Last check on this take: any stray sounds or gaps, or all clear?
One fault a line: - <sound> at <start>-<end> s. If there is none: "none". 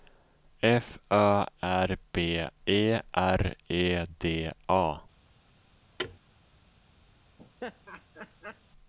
- thud at 6.0-6.2 s
- laugh at 7.4-8.6 s